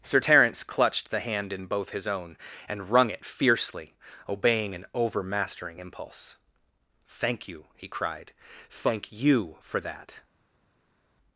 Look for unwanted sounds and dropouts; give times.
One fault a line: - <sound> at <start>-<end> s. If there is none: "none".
none